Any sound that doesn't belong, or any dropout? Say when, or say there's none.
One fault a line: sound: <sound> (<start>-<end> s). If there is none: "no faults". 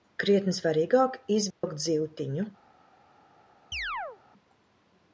sound: dropout (1.5-1.6 s)
sound: chirp (3.7-4.2 s)